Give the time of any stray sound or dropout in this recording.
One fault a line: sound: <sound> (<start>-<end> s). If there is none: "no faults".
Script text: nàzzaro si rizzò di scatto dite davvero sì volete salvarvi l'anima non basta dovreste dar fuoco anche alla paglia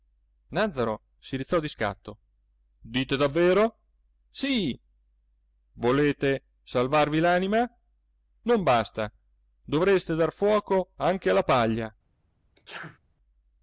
sound: sneeze (12.6-13.0 s)